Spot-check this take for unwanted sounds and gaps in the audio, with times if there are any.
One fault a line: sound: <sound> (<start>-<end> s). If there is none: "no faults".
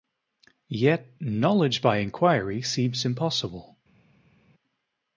no faults